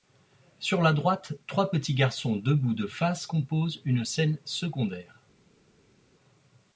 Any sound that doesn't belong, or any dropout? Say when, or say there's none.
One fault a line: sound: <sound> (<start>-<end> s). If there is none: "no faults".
no faults